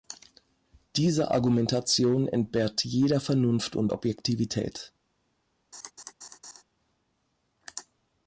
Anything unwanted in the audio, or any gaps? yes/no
yes